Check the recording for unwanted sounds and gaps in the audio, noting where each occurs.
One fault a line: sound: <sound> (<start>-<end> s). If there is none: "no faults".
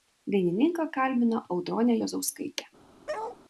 sound: bark (3.1-3.4 s)